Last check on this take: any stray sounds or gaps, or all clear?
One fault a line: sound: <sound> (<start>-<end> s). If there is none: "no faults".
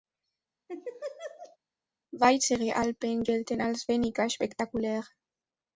sound: laugh (0.7-1.6 s)